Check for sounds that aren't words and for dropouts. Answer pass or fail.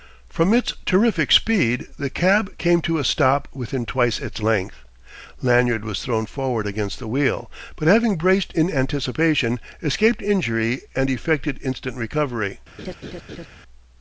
fail